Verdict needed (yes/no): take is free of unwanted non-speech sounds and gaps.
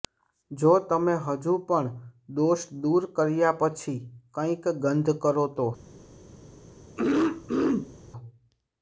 no